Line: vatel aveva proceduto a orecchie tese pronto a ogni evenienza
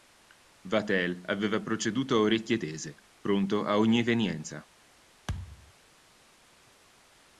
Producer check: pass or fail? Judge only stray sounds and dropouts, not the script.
fail